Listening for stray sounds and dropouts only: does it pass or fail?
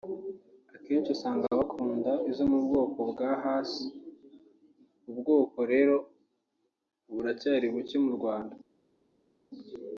pass